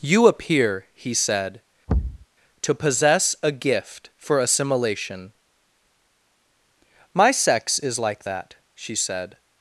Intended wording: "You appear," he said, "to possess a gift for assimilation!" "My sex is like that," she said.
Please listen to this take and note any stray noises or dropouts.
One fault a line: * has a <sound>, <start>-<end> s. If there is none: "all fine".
* has a thud, 1.9-2.3 s